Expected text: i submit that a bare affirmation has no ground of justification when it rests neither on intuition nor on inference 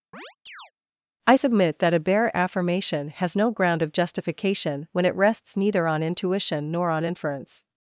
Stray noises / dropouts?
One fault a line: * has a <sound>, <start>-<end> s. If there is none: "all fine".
* has a chirp, 0.1-0.7 s